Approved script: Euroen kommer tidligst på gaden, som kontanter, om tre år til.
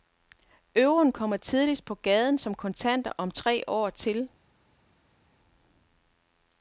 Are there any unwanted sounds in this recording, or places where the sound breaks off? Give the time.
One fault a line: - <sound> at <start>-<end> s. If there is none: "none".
none